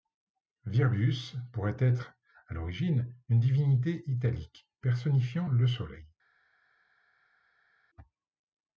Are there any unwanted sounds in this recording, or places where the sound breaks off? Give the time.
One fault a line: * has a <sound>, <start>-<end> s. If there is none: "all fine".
all fine